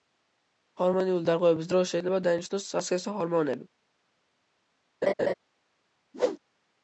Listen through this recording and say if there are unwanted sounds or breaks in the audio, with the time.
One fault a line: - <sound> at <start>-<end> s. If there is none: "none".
- laugh at 5.0-5.3 s
- whoosh at 6.1-6.4 s